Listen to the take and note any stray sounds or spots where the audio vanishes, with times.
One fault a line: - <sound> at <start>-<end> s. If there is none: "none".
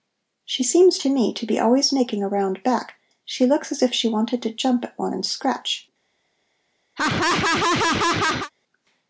- laugh at 7.0-8.5 s